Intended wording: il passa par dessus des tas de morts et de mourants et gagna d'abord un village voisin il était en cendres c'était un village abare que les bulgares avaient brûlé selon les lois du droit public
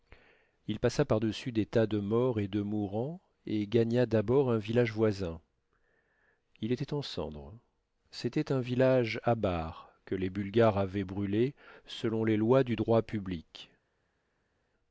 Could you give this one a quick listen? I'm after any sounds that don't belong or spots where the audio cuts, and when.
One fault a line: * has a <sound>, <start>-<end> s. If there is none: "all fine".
all fine